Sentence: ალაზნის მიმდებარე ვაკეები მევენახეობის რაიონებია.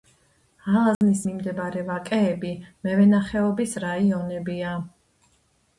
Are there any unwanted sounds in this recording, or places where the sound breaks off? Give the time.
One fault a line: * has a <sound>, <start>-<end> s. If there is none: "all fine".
* has a dropout, 0.9-1.0 s